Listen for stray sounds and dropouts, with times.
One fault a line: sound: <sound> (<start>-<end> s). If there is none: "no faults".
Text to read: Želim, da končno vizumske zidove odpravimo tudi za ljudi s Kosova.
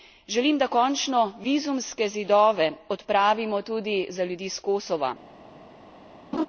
sound: laugh (6.3-6.5 s)